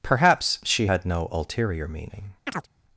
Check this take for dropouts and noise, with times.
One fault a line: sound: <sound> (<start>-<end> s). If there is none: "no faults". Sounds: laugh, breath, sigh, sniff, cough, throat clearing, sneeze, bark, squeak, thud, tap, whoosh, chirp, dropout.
sound: chirp (2.5-2.7 s)